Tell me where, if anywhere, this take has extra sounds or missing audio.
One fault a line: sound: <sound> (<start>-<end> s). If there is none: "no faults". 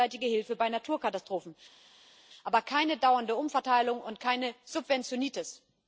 no faults